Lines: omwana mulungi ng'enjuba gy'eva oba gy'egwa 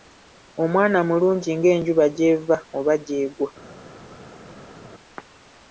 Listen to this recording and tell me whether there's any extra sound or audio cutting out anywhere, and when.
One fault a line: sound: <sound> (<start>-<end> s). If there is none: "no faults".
no faults